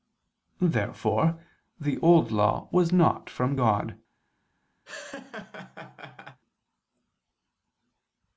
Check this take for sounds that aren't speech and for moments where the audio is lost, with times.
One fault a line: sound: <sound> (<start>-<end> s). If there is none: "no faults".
sound: laugh (4.9-6.4 s)